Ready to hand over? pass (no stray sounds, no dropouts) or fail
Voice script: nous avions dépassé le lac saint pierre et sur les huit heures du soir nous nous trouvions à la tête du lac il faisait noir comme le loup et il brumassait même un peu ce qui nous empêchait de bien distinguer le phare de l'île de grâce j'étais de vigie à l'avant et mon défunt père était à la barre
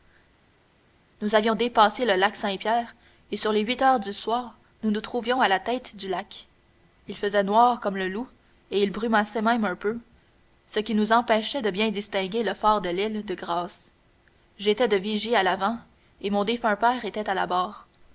pass